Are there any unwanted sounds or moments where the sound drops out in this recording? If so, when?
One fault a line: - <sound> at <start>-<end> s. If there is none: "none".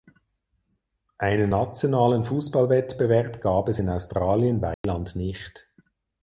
- dropout at 4.7-4.8 s